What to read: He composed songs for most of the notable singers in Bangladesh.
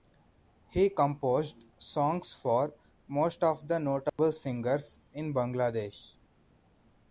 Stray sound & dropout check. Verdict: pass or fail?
fail